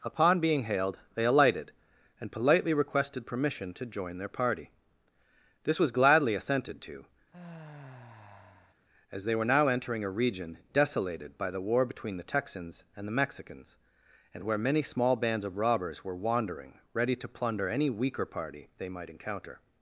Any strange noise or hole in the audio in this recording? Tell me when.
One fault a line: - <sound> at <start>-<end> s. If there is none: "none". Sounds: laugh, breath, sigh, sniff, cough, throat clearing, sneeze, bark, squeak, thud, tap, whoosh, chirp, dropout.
- sigh at 7.3-8.7 s